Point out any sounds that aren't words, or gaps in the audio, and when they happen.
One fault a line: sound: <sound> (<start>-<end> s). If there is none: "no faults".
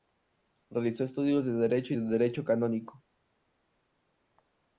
no faults